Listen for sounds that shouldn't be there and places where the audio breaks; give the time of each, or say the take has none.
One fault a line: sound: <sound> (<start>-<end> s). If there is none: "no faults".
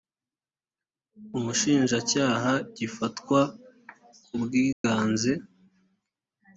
sound: dropout (4.7-4.8 s)